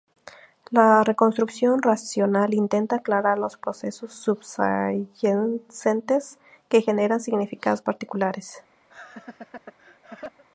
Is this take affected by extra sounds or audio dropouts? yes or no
yes